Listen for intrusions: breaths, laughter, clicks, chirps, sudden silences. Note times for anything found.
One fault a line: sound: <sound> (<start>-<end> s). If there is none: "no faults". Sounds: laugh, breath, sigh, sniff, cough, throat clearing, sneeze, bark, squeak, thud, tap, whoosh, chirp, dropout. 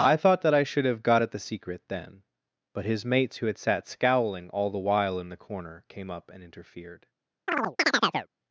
sound: chirp (7.5-8.3 s)